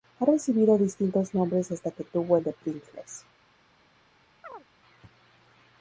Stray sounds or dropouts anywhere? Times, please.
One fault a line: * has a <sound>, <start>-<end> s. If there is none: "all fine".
* has a chirp, 4.4-4.7 s